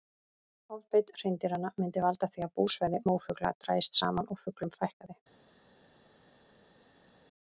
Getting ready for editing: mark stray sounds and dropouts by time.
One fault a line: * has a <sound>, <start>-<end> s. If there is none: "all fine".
all fine